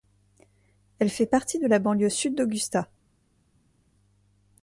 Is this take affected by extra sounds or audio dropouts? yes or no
no